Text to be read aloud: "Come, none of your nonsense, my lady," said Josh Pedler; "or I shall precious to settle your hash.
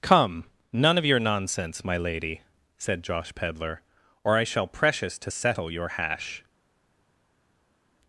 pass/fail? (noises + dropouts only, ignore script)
pass